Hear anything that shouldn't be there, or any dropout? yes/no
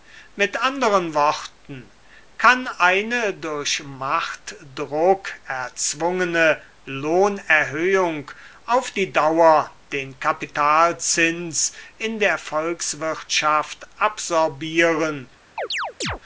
yes